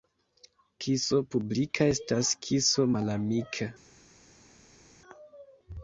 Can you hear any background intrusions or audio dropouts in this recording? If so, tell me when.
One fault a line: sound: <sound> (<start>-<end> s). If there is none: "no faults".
no faults